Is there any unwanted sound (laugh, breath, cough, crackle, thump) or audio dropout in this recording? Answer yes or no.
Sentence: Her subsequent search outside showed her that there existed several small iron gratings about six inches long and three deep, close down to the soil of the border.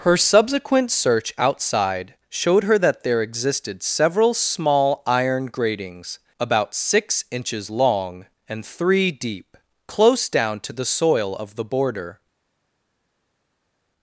no